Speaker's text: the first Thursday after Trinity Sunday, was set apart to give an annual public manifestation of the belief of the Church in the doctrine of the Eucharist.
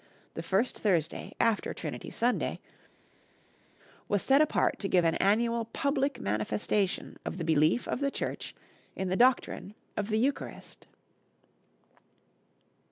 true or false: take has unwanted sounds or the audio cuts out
false